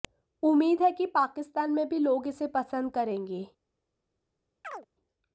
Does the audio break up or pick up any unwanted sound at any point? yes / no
yes